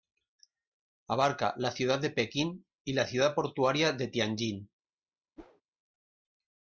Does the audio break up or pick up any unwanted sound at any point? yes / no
yes